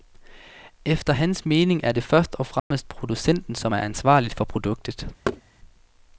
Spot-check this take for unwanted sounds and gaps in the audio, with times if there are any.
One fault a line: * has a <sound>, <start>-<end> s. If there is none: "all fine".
* has a dropout, 2.6-2.7 s
* has a thud, 5.3-5.4 s